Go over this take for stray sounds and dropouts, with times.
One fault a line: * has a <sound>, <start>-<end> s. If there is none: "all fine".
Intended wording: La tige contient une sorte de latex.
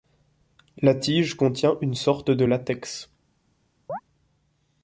* has a chirp, 3.9-4.0 s